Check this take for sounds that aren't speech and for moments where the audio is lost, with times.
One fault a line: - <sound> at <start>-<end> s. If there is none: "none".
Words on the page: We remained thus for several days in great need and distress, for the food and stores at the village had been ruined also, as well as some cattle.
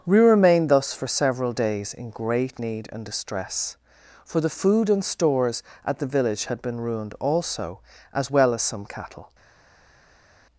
none